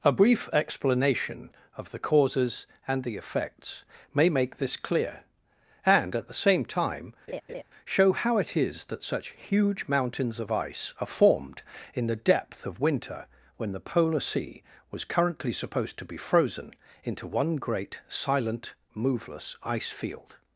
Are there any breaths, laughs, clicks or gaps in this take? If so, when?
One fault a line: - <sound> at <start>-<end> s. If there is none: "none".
- laugh at 7.3-7.6 s